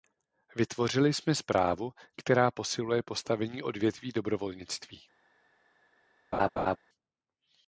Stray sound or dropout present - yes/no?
yes